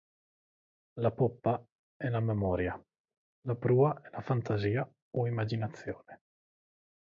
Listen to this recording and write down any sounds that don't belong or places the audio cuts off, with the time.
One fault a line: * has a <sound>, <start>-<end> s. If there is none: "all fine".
all fine